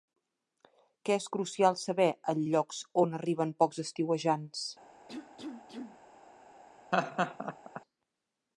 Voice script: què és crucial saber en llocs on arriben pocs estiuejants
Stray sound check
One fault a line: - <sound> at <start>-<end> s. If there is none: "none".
- cough at 5.1-6.0 s
- laugh at 6.9-7.8 s